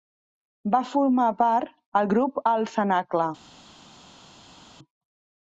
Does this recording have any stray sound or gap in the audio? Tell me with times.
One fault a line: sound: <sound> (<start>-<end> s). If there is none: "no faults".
no faults